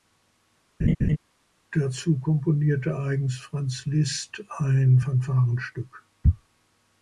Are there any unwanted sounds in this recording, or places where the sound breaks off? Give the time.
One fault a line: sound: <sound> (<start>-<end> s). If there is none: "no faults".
sound: laugh (0.8-1.2 s)